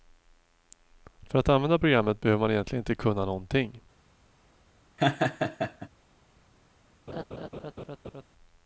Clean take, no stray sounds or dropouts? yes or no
no